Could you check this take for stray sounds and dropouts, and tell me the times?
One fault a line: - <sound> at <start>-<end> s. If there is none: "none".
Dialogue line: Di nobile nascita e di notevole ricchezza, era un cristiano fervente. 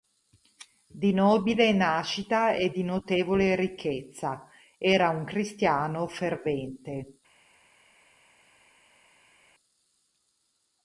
none